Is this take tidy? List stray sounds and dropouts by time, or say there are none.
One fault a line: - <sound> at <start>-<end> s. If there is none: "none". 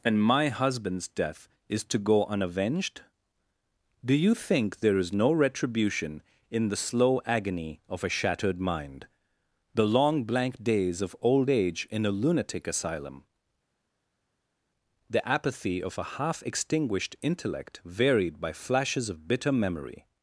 none